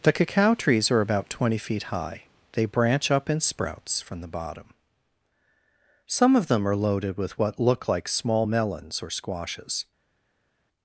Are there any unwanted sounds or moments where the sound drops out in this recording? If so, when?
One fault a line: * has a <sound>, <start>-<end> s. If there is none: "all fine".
all fine